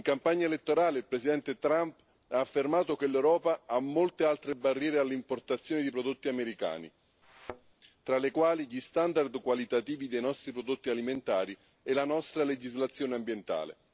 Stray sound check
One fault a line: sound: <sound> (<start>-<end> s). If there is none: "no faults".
sound: thud (7.2-7.7 s)